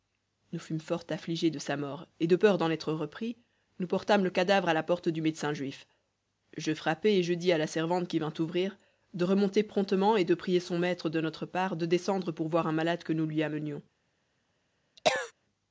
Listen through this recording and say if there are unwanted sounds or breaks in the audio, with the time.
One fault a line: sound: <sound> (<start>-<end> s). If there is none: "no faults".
sound: cough (15.0-15.3 s)